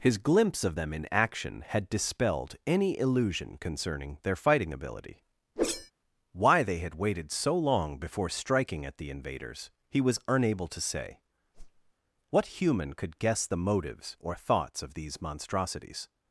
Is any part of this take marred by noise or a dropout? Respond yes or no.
yes